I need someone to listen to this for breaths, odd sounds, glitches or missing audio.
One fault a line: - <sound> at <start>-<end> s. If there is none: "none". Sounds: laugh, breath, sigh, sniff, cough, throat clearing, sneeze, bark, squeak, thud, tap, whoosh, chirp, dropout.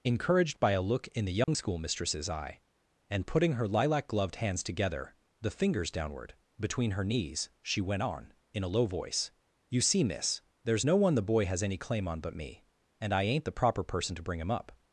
- dropout at 1.4-1.5 s